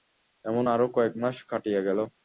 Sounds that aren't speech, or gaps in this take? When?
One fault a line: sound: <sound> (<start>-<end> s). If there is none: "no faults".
no faults